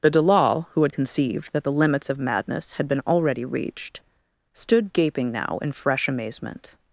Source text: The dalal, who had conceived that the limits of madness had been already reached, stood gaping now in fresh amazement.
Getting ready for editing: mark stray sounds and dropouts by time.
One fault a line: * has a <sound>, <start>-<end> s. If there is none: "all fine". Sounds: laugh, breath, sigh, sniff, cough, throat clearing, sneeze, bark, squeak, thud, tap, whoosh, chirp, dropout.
all fine